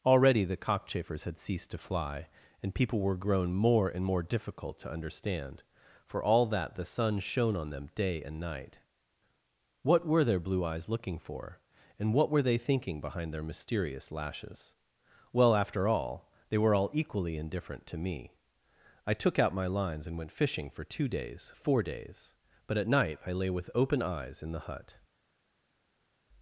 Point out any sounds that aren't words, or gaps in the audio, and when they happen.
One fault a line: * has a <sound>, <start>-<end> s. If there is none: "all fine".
all fine